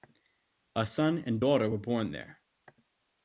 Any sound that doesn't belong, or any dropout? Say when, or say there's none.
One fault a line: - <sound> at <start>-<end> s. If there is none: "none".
none